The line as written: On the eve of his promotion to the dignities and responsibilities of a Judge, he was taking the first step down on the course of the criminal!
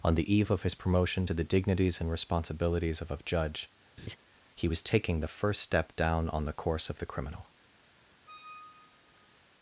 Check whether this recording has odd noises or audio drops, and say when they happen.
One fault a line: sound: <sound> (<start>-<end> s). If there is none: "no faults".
sound: laugh (4.0-4.2 s)
sound: squeak (8.3-9.4 s)